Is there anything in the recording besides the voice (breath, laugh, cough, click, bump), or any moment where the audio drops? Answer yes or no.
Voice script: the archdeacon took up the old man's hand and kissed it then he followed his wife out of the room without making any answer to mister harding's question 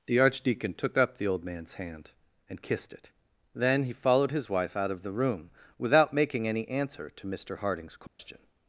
yes